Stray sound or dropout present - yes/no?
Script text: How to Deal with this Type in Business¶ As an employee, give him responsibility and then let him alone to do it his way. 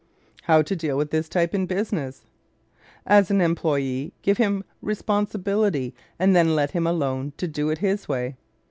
no